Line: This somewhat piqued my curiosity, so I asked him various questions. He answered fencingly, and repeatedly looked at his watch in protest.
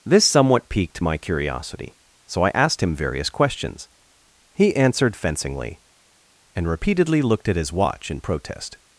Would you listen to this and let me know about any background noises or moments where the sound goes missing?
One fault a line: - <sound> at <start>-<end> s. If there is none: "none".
none